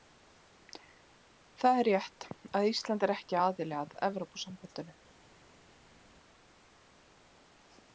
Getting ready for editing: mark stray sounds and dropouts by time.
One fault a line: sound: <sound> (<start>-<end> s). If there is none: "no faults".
no faults